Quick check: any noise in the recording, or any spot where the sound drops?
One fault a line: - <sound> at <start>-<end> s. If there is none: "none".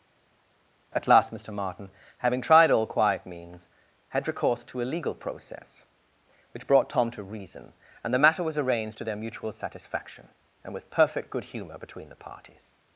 none